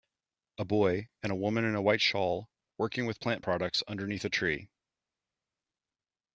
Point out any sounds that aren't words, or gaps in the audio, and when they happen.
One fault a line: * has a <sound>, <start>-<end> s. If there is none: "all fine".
all fine